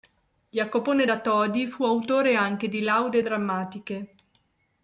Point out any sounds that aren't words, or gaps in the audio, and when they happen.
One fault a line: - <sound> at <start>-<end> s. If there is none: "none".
none